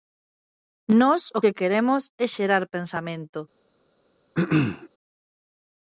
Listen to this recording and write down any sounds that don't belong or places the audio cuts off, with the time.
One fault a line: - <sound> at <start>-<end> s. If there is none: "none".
- throat clearing at 4.3-4.9 s